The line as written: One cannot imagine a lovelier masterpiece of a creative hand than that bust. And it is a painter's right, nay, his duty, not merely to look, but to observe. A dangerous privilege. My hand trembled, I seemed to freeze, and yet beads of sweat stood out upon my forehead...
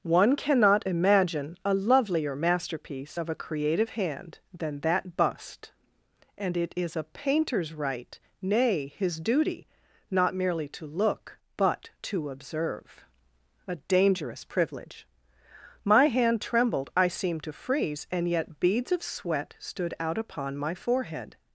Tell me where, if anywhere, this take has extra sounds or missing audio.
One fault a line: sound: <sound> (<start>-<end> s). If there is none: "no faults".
no faults